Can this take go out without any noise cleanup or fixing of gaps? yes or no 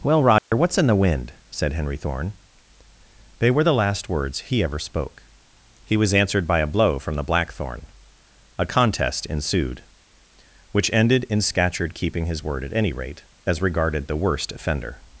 no